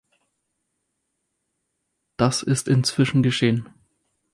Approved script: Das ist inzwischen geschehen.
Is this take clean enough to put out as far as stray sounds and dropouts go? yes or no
yes